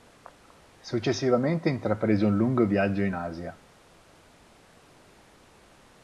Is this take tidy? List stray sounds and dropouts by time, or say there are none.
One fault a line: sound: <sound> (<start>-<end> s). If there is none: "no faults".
no faults